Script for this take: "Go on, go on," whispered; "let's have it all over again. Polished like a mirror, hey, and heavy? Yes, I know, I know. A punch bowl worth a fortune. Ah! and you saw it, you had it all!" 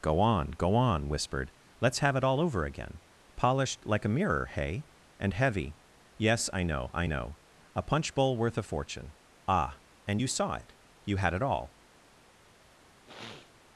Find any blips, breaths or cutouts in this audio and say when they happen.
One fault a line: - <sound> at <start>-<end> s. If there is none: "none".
- sniff at 13.1-13.5 s